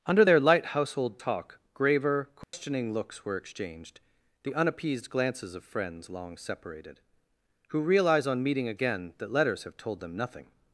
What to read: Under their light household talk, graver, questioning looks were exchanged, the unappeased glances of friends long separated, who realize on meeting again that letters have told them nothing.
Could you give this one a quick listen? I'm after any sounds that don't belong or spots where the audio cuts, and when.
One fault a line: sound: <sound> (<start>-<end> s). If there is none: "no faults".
sound: dropout (2.4-2.5 s)